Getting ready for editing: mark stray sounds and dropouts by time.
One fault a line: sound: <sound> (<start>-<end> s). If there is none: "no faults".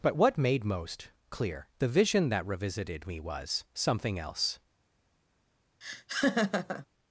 sound: laugh (5.8-6.9 s)